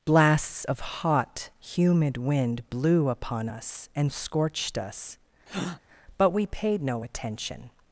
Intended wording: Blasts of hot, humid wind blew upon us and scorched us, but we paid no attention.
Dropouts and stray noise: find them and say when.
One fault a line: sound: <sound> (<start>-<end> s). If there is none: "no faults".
sound: breath (5.5-5.8 s)